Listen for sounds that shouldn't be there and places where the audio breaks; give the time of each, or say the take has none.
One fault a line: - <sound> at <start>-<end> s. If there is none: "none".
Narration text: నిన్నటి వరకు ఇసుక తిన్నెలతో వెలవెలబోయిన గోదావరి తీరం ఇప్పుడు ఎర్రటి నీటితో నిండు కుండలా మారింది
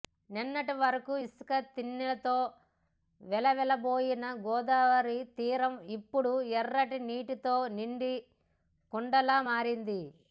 none